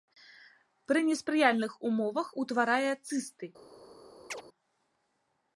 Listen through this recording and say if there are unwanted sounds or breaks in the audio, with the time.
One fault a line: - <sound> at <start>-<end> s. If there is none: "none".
- chirp at 4.3-4.4 s